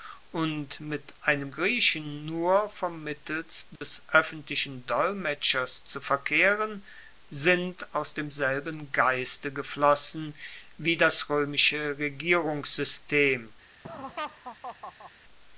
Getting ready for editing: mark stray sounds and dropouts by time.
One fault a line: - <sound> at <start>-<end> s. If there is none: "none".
- dropout at 3.8-3.8 s
- laugh at 13.8-15.1 s